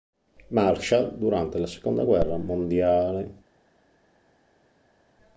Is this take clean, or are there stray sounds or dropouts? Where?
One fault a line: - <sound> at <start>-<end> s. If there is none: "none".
none